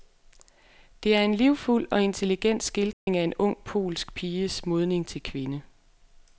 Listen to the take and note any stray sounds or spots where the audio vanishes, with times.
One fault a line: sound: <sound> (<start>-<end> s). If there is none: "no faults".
sound: dropout (2.9-3.1 s)